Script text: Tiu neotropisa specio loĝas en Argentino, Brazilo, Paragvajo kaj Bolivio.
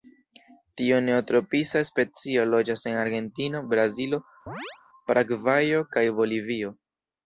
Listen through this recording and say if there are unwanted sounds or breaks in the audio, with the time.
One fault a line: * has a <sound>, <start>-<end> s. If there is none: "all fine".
* has a chirp, 4.5-4.8 s